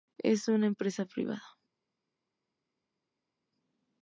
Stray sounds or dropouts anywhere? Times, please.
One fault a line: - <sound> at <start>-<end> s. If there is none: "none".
none